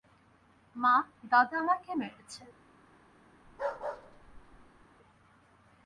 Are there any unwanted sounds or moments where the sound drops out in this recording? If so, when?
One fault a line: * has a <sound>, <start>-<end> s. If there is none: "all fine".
* has a bark, 3.4-4.9 s